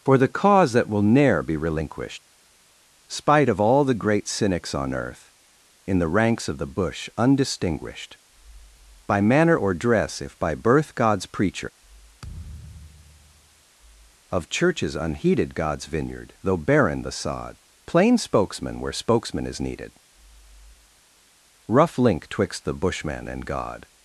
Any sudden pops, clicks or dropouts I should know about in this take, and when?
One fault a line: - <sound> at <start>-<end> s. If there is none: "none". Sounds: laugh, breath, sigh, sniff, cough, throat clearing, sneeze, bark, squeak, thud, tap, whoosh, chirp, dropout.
- thud at 12.2-13.6 s